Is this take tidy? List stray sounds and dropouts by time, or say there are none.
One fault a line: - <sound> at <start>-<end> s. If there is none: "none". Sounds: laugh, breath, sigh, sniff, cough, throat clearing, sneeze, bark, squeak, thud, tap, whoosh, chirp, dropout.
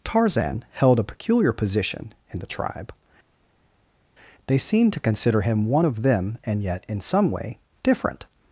none